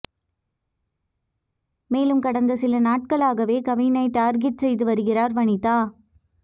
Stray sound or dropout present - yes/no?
no